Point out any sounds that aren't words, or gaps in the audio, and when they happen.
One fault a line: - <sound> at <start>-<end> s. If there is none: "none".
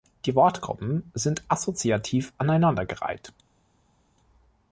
none